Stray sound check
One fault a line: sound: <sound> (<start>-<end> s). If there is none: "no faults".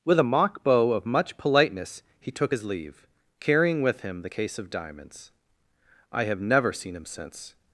no faults